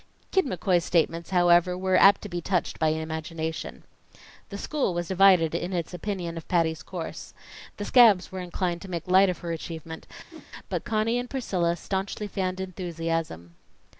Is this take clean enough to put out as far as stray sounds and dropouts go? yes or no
no